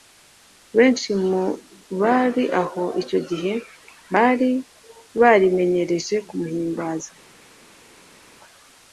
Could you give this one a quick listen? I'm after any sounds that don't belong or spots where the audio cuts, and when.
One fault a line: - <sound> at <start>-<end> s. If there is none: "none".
none